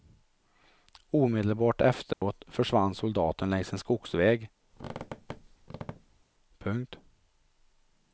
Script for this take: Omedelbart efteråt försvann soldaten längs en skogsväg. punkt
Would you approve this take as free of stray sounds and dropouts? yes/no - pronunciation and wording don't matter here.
no